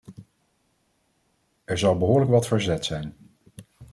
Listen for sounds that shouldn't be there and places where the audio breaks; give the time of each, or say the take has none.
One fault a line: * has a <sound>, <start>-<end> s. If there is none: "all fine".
all fine